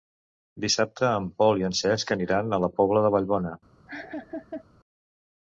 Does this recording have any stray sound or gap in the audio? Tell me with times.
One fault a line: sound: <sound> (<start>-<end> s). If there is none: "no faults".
sound: laugh (3.9-4.6 s)